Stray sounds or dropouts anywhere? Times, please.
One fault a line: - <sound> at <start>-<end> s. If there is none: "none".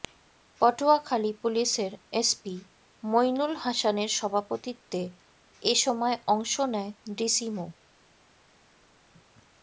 none